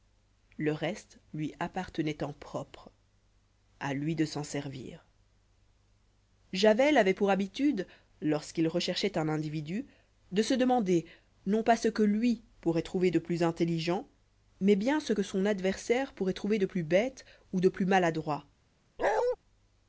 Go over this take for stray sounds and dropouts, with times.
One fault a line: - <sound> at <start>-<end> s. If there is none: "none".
- bark at 19.0-19.4 s